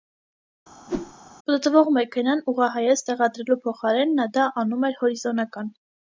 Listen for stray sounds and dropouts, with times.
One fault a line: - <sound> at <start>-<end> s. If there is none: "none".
- whoosh at 0.9-1.1 s